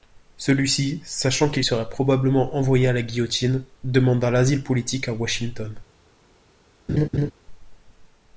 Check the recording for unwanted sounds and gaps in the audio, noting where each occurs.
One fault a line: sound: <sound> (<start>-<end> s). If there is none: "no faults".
sound: laugh (6.9-7.3 s)